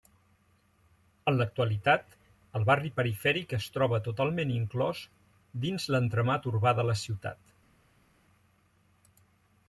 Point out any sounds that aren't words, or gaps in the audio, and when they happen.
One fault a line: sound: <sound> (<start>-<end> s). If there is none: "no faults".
no faults